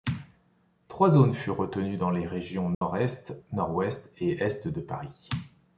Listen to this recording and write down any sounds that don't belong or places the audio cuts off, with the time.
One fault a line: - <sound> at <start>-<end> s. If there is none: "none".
- dropout at 2.7-2.8 s